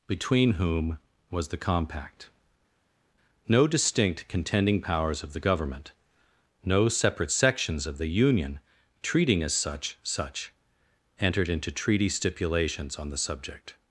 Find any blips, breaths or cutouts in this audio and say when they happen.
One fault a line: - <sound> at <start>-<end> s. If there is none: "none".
none